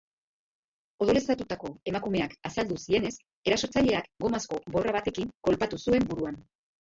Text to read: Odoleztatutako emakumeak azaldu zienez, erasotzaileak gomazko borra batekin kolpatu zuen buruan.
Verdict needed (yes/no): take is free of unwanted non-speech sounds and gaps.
yes